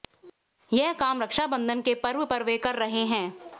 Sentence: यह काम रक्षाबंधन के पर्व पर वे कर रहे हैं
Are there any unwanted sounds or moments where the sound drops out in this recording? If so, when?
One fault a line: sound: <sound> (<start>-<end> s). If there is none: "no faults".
no faults